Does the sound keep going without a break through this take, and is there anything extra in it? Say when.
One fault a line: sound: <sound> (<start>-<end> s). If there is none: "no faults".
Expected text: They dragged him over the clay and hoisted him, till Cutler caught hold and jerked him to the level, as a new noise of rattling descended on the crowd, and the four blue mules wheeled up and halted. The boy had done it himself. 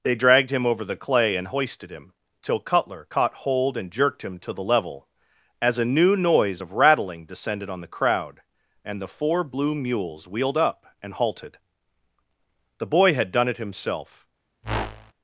sound: whoosh (14.6-15.1 s)